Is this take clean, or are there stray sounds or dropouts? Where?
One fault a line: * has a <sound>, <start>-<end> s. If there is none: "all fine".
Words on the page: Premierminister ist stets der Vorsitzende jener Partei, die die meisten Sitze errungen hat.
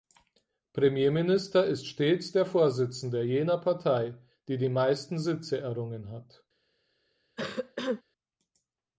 * has a cough, 7.4-8.0 s